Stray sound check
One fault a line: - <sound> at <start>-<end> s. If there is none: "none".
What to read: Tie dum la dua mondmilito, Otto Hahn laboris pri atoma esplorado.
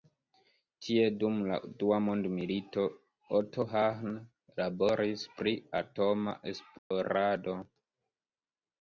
- dropout at 6.8-6.9 s